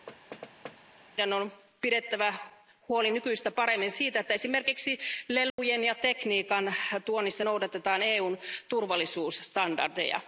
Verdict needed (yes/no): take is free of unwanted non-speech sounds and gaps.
no